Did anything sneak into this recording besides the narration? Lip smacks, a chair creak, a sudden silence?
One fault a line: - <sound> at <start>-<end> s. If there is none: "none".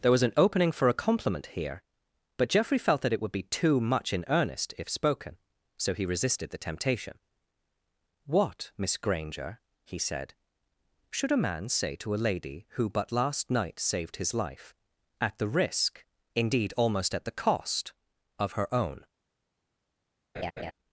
- laugh at 20.3-20.7 s